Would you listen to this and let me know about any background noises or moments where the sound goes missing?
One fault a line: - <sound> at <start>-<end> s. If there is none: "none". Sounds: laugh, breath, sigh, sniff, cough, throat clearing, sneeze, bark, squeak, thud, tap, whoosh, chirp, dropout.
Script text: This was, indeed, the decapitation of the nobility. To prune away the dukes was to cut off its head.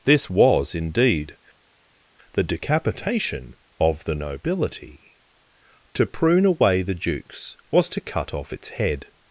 none